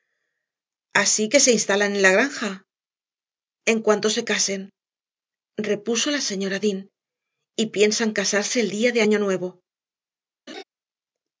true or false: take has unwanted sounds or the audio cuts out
true